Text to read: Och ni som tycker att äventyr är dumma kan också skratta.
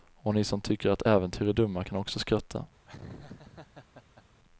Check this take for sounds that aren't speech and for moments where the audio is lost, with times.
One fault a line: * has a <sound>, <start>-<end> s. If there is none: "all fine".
* has a laugh, 2.9-4.2 s